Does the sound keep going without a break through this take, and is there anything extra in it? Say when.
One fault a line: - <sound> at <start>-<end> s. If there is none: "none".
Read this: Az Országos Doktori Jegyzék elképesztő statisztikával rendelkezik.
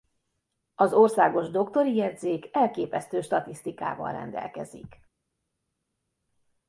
none